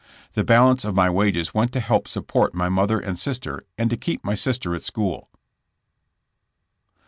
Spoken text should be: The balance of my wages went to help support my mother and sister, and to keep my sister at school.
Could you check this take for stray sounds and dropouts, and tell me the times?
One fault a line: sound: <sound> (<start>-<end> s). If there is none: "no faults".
no faults